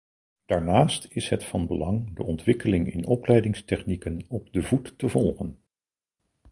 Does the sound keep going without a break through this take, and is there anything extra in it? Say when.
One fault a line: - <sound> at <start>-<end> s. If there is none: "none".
none